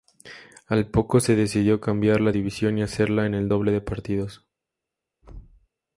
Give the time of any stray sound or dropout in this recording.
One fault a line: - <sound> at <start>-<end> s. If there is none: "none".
- thud at 5.2-5.7 s